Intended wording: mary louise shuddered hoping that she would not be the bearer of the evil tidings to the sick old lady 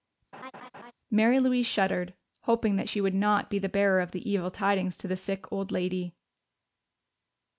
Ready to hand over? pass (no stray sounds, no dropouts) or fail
fail